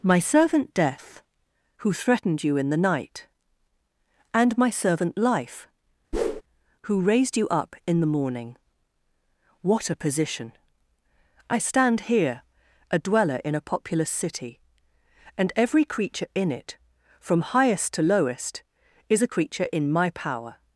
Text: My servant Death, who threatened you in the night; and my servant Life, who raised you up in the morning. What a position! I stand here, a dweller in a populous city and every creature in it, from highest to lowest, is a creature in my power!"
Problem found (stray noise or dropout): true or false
true